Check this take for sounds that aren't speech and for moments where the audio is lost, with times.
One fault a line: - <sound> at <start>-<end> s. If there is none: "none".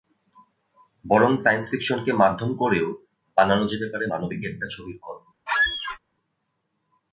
- squeak at 5.5-6.0 s